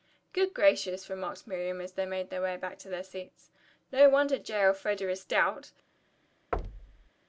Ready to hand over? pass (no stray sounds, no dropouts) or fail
fail